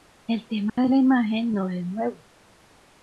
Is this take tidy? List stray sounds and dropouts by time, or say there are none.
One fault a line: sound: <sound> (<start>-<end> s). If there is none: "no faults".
sound: dropout (0.7-0.8 s)